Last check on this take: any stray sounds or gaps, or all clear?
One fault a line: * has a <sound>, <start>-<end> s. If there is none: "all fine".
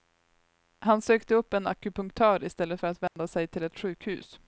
* has a dropout, 3.1-3.2 s